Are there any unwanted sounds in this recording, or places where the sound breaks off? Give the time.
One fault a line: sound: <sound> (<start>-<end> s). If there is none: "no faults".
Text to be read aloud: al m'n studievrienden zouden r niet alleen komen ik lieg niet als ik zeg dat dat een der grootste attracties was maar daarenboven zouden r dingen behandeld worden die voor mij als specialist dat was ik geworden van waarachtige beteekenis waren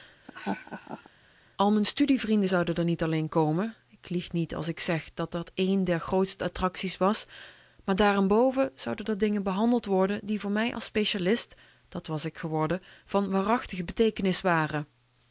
sound: laugh (0.2-1.1 s)